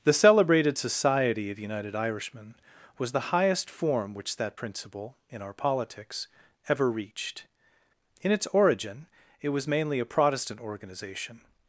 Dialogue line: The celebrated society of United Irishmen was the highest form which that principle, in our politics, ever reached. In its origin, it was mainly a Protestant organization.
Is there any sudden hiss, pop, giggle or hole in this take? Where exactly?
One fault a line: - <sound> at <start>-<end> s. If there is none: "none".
none